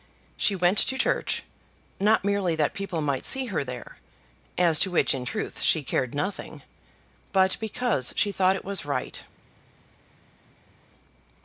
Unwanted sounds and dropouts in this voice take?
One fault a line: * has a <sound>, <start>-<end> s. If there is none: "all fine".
all fine